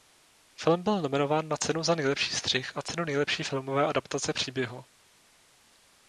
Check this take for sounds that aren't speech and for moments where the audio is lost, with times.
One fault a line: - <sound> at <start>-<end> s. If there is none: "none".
none